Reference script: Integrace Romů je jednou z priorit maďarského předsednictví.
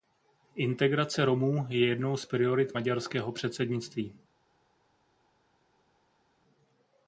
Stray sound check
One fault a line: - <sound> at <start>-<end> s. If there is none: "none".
none